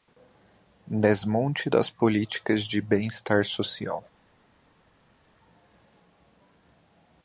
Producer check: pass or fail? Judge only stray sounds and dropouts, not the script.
pass